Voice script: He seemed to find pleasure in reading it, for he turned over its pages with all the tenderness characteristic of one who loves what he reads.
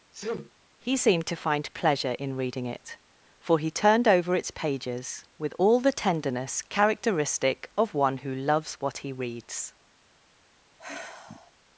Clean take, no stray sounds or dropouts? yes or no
no